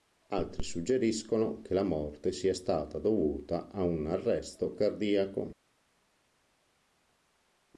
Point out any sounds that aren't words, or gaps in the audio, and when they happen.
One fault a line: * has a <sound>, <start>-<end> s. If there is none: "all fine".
all fine